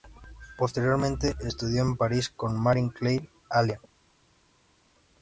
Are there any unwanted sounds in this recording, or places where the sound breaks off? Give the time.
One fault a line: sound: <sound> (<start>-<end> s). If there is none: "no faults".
no faults